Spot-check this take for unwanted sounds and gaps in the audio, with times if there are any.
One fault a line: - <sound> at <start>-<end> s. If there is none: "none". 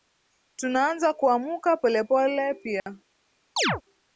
- dropout at 2.8-2.9 s
- chirp at 3.6-3.8 s